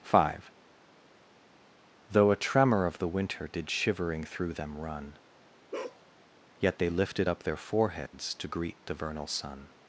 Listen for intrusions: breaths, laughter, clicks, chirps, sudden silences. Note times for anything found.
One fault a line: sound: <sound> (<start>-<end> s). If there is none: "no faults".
sound: bark (5.7-6.0 s)
sound: dropout (8.1-8.1 s)